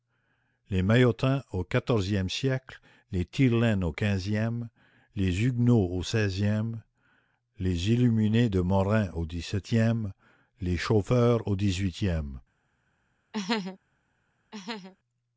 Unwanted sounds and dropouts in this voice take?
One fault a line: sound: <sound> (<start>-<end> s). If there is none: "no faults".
sound: laugh (13.3-13.8 s)
sound: laugh (14.5-15.0 s)